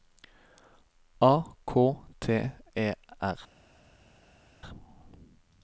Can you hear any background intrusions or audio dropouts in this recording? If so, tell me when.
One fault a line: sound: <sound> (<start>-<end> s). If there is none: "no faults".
no faults